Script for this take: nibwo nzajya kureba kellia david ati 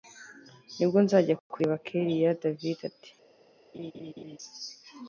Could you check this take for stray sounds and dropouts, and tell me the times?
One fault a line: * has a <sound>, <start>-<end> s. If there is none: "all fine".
* has a laugh, 3.7-4.4 s